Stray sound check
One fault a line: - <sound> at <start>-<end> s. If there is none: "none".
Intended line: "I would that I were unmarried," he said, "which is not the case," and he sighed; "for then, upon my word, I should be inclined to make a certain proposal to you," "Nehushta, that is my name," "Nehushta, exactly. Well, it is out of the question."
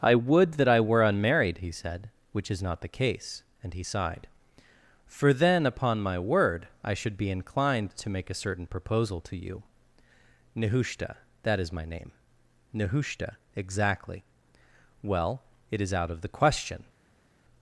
none